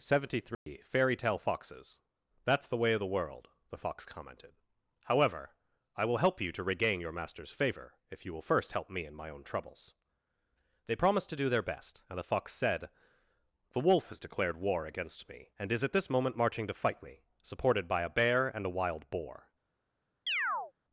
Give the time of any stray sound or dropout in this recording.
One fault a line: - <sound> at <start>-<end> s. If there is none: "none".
- dropout at 0.5-0.7 s
- chirp at 20.3-20.7 s